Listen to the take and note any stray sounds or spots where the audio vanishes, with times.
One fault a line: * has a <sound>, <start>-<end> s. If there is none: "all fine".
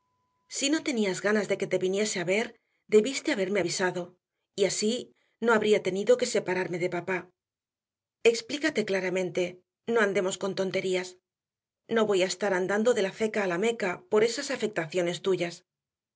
all fine